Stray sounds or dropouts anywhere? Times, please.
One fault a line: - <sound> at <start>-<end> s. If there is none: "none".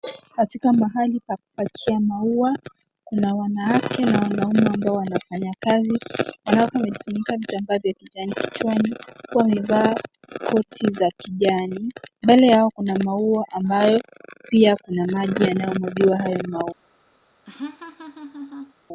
- laugh at 17.5-18.7 s